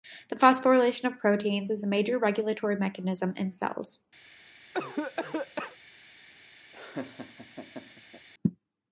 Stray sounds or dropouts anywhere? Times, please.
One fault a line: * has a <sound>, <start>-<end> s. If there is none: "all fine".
* has a cough, 4.7-5.8 s
* has a laugh, 6.7-8.3 s